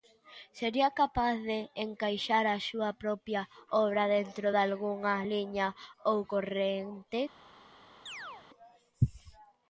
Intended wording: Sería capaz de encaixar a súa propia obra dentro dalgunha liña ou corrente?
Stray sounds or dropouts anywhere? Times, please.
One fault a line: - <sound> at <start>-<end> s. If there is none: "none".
- chirp at 8.1-8.5 s